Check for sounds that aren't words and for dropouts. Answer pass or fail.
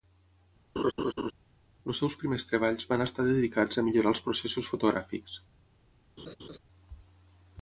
fail